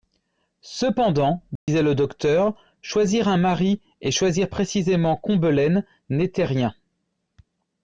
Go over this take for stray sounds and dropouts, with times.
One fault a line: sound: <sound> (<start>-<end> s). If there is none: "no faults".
sound: dropout (1.6-1.7 s)